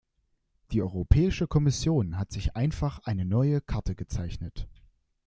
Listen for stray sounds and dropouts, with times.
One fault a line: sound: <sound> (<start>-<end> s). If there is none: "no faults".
no faults